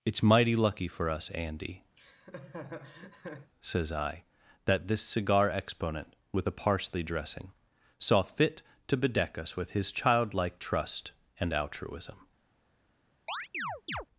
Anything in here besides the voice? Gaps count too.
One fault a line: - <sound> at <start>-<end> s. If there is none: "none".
- laugh at 2.0-3.5 s
- chirp at 13.3-14.1 s